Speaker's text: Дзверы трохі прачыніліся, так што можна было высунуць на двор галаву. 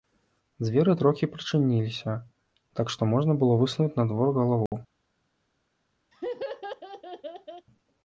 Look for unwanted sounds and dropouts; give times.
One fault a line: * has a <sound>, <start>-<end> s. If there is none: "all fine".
* has a dropout, 4.7-4.7 s
* has a laugh, 6.1-7.7 s